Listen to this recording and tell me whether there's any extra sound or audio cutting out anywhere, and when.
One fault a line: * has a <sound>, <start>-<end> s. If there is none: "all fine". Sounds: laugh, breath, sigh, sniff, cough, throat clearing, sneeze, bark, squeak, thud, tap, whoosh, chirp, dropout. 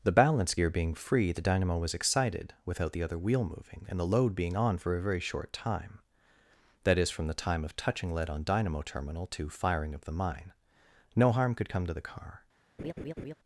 * has a laugh, 12.8-13.3 s